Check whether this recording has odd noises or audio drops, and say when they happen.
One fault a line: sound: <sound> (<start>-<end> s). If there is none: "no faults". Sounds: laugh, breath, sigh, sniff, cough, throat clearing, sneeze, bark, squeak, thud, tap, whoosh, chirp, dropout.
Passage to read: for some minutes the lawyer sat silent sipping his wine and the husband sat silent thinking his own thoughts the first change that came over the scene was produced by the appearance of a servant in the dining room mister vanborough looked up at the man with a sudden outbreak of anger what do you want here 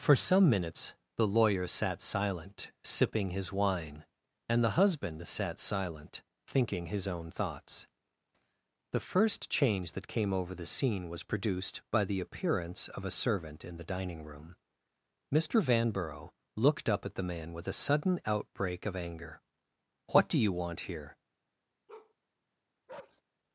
sound: bark (21.9-22.1 s)
sound: bark (22.9-23.2 s)